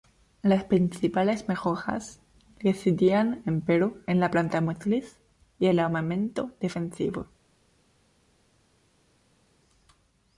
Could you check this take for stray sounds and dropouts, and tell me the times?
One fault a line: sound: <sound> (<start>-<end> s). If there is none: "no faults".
no faults